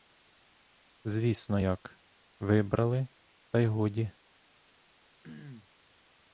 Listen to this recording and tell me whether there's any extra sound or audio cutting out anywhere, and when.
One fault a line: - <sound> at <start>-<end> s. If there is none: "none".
- throat clearing at 5.2-5.7 s